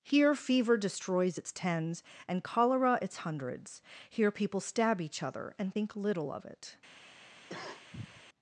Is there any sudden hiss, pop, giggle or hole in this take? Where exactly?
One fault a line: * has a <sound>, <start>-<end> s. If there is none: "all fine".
* has a cough, 7.5-8.2 s